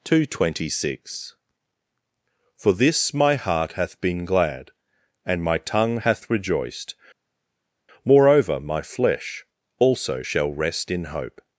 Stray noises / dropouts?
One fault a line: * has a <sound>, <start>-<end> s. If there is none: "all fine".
all fine